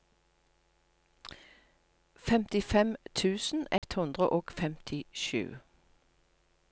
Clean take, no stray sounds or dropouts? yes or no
no